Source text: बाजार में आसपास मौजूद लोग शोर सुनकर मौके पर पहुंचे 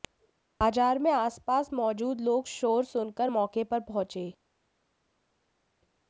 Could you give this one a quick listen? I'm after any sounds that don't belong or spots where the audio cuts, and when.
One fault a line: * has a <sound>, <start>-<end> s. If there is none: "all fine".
all fine